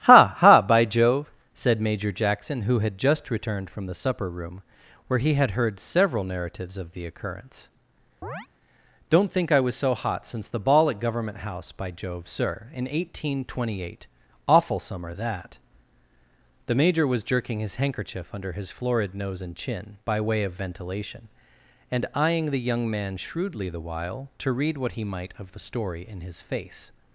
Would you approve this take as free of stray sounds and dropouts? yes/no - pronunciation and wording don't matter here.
no